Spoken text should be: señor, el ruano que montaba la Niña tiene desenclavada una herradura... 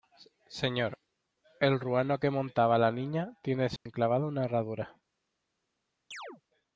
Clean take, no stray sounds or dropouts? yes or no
no